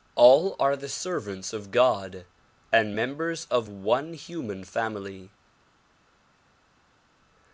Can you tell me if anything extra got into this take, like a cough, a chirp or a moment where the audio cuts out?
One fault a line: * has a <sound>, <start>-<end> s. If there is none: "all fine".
all fine